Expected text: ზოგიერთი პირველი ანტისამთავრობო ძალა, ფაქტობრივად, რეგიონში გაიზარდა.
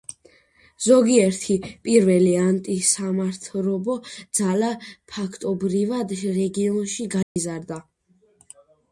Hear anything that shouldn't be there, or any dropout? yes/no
yes